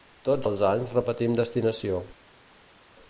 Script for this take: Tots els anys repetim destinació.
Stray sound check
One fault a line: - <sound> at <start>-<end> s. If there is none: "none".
none